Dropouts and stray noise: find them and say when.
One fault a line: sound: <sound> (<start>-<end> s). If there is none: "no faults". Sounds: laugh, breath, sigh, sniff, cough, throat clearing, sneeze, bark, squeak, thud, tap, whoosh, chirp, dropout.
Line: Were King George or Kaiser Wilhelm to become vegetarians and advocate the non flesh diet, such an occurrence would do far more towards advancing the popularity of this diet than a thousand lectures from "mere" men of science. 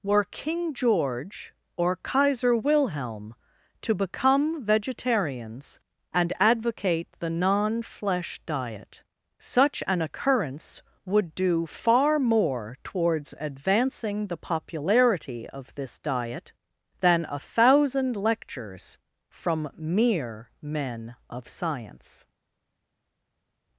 no faults